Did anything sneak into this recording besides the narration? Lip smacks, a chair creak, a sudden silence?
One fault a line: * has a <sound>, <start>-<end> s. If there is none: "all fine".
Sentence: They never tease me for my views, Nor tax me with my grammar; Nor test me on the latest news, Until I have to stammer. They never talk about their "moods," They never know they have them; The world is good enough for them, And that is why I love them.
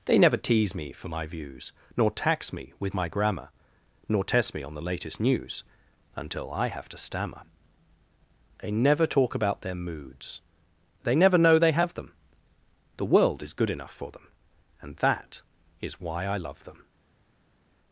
all fine